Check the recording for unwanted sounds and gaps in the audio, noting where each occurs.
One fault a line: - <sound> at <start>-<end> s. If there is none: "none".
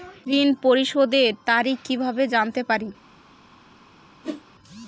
- whoosh at 4.2-4.4 s